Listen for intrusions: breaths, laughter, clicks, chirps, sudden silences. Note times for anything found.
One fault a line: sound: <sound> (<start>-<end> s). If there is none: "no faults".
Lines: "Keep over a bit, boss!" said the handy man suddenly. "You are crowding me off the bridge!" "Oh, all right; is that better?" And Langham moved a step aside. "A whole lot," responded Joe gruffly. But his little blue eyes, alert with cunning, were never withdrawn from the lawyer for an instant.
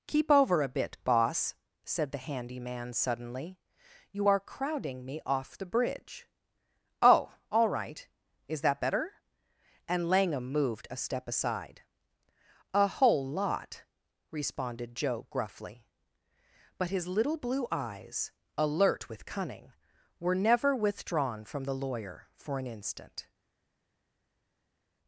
no faults